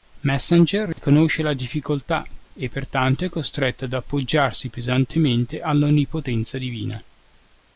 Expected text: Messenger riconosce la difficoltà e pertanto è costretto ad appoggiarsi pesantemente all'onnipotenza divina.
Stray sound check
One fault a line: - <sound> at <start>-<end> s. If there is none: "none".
- dropout at 0.9-1.0 s